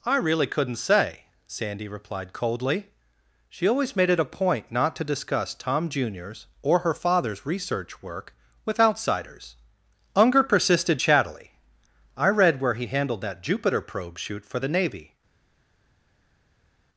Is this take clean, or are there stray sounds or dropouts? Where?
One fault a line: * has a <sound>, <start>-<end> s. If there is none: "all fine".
all fine